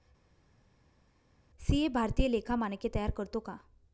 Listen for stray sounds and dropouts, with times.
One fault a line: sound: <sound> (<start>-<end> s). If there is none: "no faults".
no faults